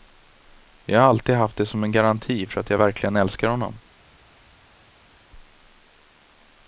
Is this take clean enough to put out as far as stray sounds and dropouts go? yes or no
yes